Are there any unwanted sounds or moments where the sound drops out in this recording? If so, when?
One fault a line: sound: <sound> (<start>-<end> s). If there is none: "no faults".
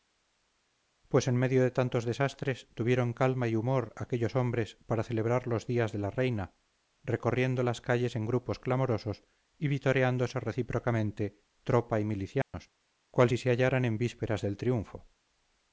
sound: dropout (12.4-12.5 s)